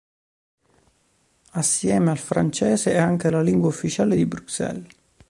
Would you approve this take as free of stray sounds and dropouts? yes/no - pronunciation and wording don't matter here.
yes